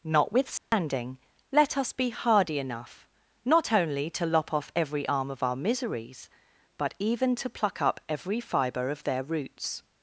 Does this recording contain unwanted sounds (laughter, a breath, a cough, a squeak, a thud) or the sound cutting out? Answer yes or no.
yes